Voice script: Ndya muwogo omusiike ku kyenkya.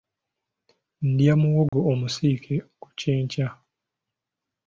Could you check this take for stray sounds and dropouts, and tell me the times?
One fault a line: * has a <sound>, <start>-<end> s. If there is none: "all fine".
* has a dropout, 1.7-1.7 s